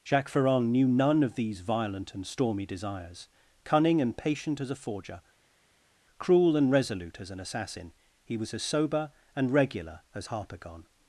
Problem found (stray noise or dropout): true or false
false